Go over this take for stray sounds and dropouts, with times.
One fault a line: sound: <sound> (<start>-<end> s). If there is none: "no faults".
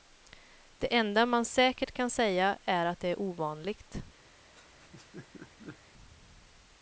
sound: laugh (4.5-5.8 s)